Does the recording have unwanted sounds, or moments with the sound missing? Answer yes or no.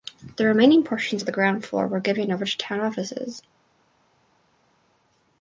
no